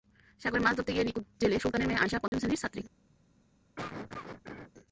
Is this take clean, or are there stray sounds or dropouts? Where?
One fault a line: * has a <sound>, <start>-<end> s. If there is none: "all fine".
* has a dropout, 2.3-2.3 s
* has a cough, 3.8-4.7 s